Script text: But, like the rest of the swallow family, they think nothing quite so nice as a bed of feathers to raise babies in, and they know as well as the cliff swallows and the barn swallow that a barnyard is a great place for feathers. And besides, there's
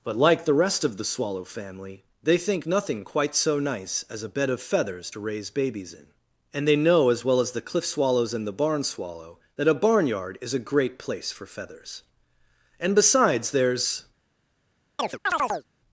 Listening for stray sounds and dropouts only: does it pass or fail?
fail